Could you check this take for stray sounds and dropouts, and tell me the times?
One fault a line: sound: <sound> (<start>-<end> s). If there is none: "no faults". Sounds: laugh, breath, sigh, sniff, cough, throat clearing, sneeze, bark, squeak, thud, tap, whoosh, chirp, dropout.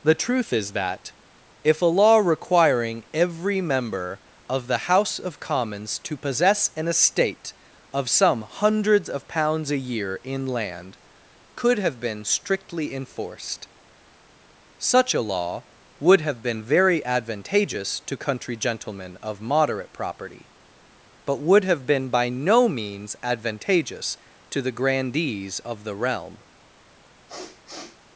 sound: sniff (27.3-28.0 s)